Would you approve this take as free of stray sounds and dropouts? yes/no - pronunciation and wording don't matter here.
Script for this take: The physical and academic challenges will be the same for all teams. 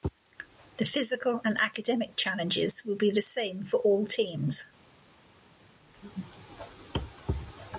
yes